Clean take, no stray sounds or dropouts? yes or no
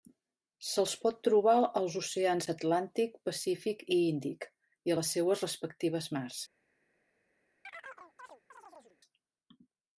no